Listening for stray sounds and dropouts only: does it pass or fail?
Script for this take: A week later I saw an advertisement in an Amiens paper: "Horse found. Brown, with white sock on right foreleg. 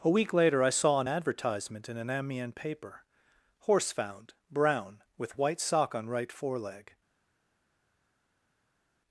pass